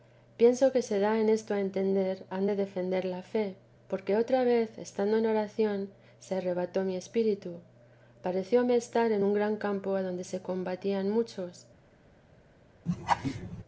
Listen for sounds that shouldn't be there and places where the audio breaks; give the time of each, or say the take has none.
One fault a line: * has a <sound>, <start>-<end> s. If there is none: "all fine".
* has a laugh, 12.9-13.6 s